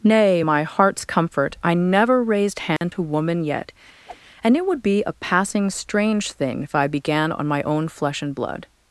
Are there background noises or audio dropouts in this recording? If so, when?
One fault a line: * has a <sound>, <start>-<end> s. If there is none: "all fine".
* has a dropout, 2.8-2.8 s
* has a whoosh, 4.1-4.2 s